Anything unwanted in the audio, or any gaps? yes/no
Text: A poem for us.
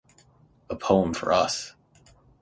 no